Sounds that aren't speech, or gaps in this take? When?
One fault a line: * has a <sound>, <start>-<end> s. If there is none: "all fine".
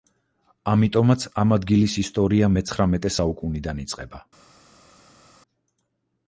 all fine